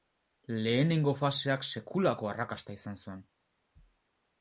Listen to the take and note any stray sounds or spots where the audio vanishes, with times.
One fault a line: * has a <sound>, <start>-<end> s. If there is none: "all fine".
all fine